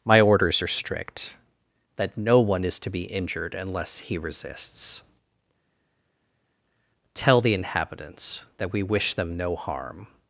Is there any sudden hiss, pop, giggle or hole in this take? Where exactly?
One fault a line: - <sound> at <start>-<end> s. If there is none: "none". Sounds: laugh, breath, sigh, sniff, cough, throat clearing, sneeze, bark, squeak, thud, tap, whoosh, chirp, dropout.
none